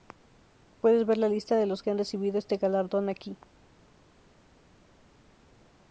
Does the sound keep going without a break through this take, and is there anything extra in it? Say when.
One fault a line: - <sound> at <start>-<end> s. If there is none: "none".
none